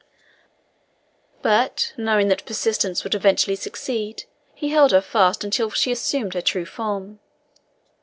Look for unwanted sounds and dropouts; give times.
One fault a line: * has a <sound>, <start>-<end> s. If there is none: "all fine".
all fine